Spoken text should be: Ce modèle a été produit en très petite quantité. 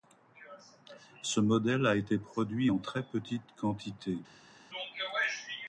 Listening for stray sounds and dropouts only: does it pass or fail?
pass